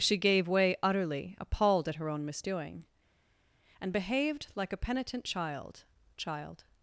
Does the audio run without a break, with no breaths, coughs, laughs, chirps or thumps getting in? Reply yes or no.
yes